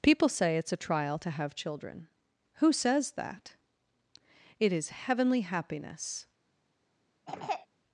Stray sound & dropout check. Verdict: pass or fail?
fail